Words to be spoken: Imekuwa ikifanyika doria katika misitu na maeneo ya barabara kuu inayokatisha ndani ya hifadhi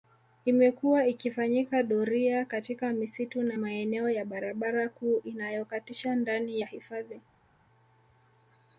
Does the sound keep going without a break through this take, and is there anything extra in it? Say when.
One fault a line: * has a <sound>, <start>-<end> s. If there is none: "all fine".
all fine